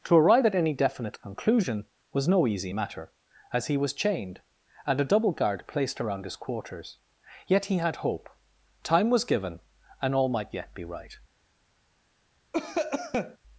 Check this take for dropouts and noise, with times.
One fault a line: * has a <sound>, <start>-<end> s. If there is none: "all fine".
* has a cough, 12.5-13.4 s